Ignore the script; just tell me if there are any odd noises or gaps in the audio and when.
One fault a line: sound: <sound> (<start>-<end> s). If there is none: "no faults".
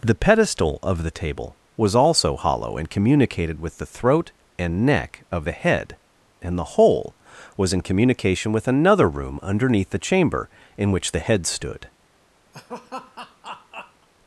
sound: laugh (12.5-14.1 s)